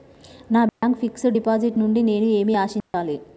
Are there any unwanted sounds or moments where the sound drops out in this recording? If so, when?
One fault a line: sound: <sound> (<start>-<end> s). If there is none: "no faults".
sound: dropout (0.7-0.8 s)
sound: dropout (2.8-2.9 s)